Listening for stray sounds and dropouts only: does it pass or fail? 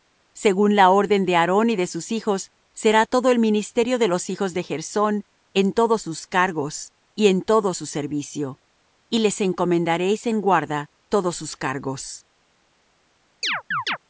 fail